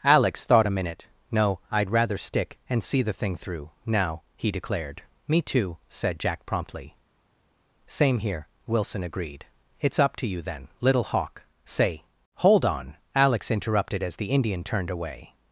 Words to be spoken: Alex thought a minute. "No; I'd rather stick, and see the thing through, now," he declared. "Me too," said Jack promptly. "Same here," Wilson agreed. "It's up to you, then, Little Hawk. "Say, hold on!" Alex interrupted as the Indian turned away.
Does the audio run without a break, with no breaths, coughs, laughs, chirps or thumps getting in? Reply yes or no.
yes